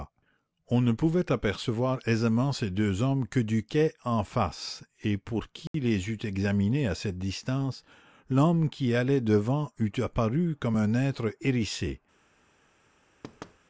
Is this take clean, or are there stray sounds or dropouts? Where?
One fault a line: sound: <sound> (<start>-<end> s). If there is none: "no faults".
sound: dropout (5.7-5.7 s)
sound: thud (13.2-13.6 s)